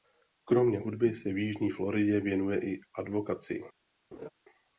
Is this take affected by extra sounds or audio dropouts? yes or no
yes